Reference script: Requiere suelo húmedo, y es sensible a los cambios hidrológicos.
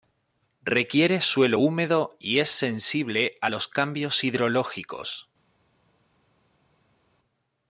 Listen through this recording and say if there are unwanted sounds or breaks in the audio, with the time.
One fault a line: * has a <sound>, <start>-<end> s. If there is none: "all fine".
all fine